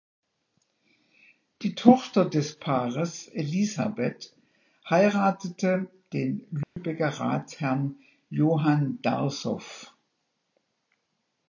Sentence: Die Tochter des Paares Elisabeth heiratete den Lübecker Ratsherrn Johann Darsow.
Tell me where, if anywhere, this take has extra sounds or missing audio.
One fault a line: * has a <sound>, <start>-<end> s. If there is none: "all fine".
* has a dropout, 6.6-6.8 s